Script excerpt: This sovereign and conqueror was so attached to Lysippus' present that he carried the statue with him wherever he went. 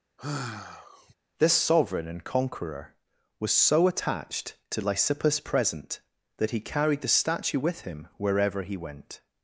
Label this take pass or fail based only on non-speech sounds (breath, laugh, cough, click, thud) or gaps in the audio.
fail